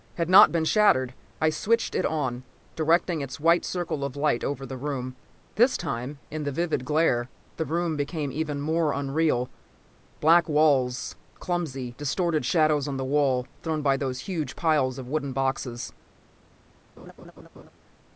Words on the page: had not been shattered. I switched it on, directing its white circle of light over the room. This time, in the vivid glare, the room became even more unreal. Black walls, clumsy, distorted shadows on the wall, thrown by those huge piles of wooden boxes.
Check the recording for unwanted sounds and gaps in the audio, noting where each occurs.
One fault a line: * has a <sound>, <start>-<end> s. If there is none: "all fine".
* has a laugh, 17.0-17.7 s